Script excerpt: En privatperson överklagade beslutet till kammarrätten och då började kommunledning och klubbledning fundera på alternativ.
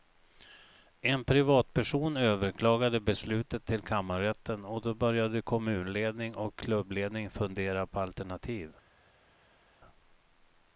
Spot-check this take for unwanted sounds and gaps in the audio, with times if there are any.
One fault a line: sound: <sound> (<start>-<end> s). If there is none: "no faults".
no faults